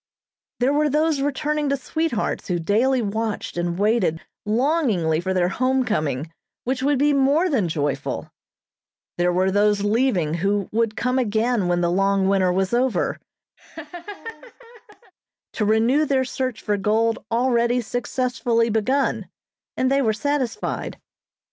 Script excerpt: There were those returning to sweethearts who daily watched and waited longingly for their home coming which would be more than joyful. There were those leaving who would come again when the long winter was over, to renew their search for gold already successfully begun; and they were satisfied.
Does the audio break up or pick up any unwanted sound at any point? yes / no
yes